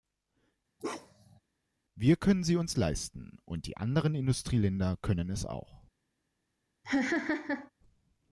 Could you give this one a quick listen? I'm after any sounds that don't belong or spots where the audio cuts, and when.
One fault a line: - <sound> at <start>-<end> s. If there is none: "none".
- bark at 0.8-1.4 s
- laugh at 6.8-7.7 s